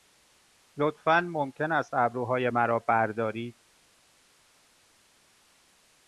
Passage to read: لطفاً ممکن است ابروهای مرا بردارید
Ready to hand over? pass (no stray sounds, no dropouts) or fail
pass